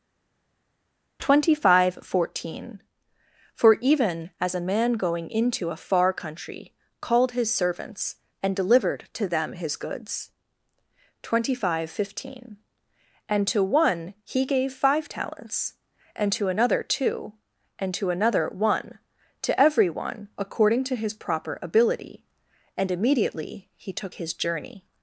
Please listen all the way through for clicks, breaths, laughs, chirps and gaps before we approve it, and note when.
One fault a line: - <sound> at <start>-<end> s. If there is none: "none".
none